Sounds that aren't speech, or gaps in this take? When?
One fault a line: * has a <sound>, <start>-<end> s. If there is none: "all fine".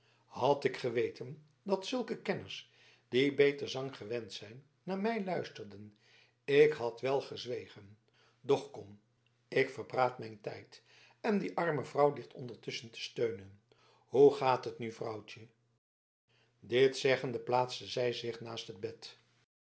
all fine